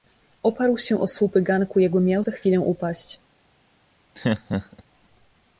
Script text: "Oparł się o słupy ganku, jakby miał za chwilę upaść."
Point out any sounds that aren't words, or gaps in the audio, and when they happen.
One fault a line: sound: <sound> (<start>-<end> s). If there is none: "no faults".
sound: laugh (4.1-4.8 s)